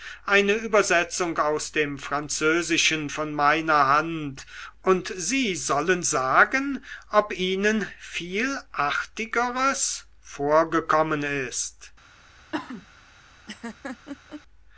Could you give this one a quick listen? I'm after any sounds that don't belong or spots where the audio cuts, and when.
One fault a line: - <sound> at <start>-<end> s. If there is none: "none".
- cough at 12.5-12.9 s
- laugh at 13.5-14.4 s